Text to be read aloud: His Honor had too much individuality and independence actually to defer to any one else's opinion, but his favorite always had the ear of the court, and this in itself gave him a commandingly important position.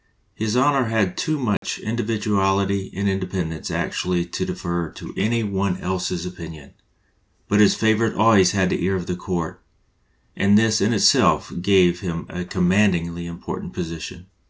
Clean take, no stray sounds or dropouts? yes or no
no